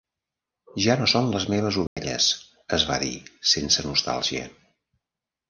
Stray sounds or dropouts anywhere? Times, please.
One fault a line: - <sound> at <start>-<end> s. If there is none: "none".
- dropout at 1.9-2.0 s